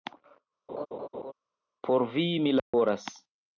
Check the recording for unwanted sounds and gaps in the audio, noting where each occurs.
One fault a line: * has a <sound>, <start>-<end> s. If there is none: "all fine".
* has a laugh, 0.7-1.3 s
* has a dropout, 2.6-2.7 s